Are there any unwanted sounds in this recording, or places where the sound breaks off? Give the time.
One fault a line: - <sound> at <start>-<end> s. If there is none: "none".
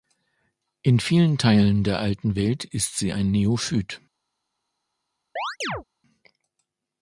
- chirp at 5.4-5.8 s